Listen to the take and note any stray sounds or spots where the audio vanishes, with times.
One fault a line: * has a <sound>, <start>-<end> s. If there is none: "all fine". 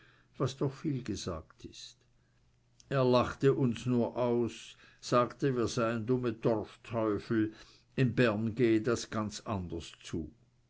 all fine